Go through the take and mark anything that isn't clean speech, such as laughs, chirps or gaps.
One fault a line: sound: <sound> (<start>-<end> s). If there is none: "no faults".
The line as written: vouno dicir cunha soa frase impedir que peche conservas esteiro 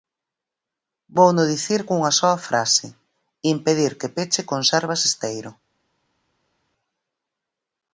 no faults